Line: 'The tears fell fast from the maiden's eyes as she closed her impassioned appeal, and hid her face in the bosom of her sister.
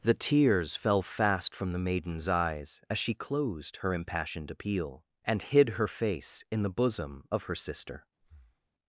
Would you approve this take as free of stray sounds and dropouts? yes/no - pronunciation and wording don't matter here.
no